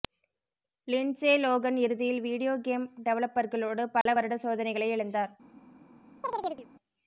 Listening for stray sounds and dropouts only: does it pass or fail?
fail